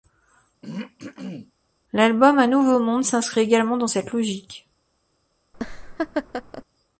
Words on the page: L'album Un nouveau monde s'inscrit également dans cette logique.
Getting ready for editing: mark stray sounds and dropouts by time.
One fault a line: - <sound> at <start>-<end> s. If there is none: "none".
- throat clearing at 0.6-1.5 s
- laugh at 5.5-6.6 s